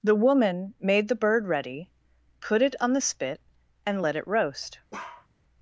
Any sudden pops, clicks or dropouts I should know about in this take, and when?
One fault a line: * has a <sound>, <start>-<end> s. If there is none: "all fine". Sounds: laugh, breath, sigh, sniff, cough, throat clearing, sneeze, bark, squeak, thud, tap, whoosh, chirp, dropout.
* has a bark, 4.9-5.3 s